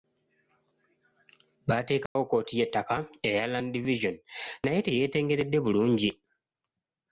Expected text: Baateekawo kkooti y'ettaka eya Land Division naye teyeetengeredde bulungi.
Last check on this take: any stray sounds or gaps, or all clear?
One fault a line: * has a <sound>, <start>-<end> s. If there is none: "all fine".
* has a dropout, 2.1-2.2 s